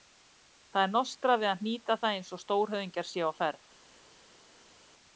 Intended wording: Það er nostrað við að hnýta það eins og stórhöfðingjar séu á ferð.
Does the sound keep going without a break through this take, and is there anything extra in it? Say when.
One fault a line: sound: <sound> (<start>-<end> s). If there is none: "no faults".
no faults